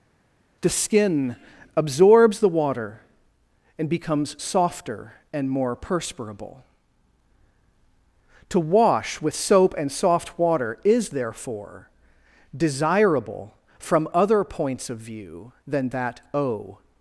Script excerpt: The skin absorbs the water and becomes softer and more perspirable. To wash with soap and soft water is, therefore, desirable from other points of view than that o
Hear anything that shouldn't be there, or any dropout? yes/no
no